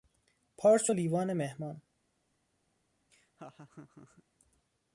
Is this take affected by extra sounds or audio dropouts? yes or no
yes